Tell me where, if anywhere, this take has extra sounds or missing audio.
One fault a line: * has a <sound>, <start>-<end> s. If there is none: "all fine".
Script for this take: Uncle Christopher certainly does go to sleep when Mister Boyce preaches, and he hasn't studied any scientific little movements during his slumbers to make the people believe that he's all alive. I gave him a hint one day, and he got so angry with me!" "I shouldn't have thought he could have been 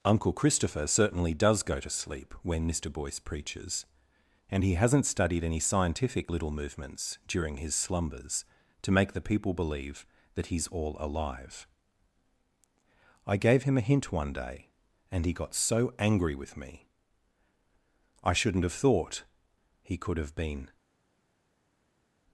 all fine